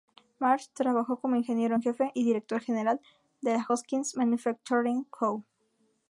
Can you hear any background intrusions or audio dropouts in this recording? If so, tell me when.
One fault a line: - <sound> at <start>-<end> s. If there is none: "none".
none